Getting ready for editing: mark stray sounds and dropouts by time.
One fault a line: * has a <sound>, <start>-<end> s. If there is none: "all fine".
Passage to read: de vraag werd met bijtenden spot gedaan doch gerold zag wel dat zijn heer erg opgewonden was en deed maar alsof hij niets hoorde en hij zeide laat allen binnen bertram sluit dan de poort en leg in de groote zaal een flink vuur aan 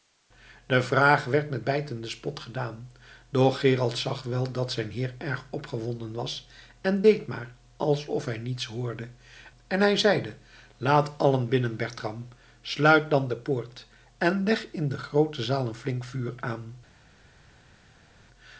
all fine